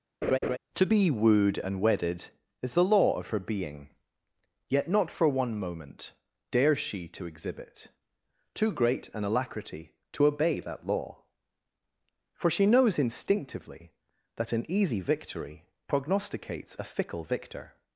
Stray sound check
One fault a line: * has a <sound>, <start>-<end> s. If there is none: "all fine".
* has a laugh, 0.2-0.6 s